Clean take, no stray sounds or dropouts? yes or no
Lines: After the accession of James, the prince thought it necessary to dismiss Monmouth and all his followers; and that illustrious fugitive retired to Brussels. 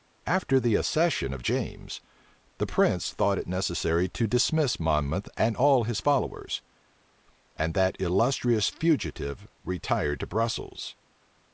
yes